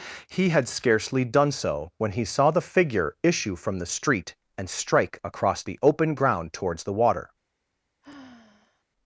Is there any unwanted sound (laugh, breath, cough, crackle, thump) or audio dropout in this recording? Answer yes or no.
yes